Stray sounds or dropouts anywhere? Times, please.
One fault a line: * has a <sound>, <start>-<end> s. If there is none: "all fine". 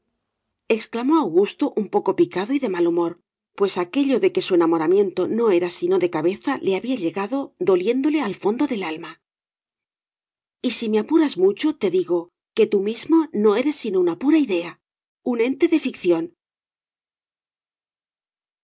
all fine